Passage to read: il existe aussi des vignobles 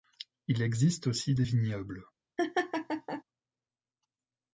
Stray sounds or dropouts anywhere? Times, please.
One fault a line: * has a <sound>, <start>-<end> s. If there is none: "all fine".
* has a laugh, 2.4-3.2 s